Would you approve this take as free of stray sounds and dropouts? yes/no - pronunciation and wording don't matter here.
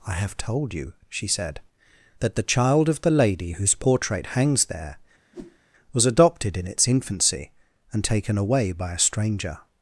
no